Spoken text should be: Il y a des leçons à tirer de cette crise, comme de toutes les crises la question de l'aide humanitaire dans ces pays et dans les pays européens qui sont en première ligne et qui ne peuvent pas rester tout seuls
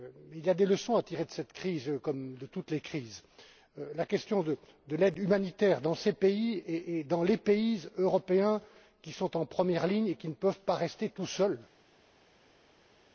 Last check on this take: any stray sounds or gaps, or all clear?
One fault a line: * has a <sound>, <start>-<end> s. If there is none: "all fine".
all fine